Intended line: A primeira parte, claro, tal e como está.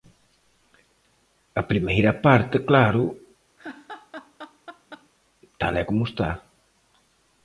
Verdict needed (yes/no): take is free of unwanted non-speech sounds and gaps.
no